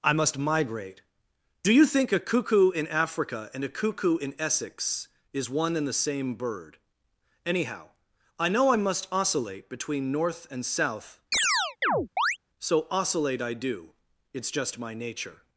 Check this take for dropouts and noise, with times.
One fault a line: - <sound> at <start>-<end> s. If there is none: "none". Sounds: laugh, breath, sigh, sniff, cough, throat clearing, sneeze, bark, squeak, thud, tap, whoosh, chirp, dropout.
- chirp at 11.3-12.4 s